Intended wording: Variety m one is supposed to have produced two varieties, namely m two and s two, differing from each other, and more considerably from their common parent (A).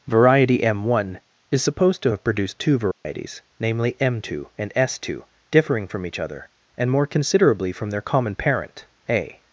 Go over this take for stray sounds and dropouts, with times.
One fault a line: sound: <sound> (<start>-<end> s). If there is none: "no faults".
sound: dropout (2.9-3.1 s)